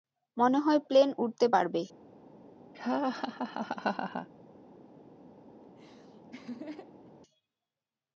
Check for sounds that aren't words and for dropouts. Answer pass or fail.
fail